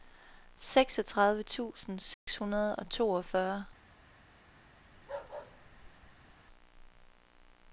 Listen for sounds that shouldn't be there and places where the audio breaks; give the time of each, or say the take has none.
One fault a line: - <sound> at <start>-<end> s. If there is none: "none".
- dropout at 2.1-2.3 s
- bark at 4.9-6.3 s